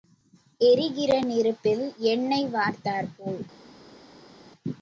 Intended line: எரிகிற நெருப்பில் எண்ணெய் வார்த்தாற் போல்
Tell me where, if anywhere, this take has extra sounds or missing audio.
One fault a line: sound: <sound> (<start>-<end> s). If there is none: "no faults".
no faults